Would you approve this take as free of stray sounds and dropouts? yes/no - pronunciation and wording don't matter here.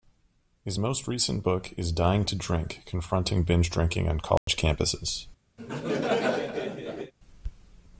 no